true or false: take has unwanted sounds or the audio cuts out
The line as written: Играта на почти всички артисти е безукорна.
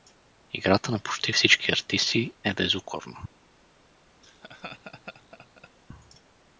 true